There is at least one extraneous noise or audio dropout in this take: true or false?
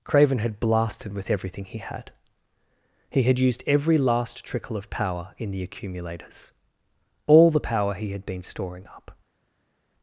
false